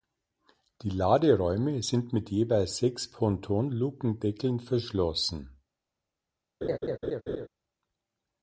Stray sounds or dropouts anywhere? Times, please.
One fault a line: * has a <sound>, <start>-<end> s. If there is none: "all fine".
* has a laugh, 6.6-7.5 s